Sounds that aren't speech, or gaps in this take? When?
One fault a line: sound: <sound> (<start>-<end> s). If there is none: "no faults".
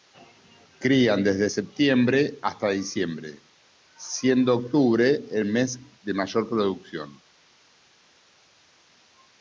no faults